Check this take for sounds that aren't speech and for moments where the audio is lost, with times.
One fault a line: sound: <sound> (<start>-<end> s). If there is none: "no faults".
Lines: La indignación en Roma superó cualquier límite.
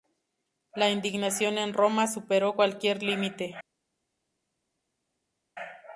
no faults